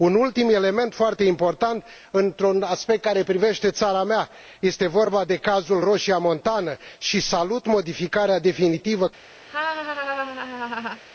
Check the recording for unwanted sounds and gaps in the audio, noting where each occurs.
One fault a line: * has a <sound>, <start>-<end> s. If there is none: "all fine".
* has a laugh, 9.5-11.0 s